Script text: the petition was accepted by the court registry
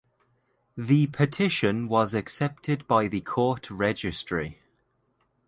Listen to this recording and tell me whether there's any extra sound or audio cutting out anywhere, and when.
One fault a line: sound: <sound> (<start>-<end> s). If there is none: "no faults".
no faults